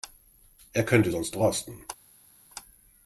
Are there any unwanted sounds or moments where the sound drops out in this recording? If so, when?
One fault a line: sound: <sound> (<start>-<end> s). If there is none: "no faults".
no faults